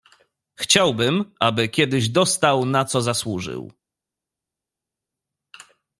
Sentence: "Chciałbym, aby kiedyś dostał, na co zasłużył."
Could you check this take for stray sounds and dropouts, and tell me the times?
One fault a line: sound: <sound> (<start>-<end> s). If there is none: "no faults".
no faults